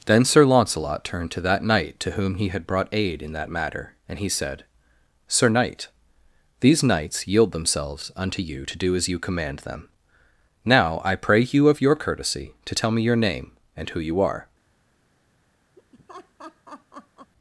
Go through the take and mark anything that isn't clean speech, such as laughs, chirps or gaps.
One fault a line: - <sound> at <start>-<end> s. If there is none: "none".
- laugh at 15.8-17.3 s